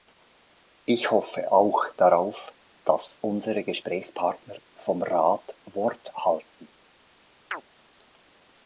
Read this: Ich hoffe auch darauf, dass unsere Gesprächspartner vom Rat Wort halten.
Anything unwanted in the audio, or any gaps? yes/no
yes